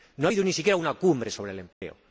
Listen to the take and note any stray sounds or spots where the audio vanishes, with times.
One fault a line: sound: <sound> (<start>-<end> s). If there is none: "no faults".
sound: dropout (1.7-1.8 s)